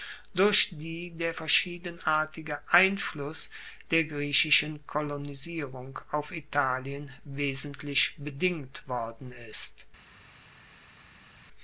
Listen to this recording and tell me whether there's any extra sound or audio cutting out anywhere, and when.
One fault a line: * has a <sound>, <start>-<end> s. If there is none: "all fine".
all fine